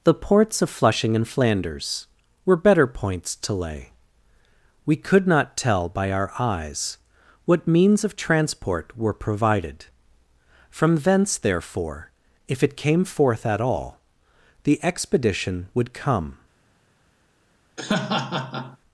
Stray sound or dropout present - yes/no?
yes